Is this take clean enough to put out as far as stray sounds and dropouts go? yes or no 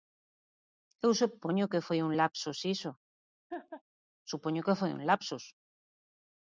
no